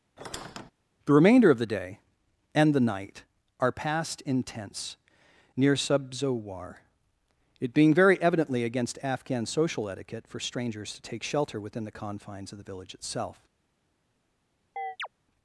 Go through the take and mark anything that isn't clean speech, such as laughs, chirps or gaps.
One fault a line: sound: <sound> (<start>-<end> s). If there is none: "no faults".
sound: squeak (0.2-0.7 s)
sound: chirp (14.8-15.1 s)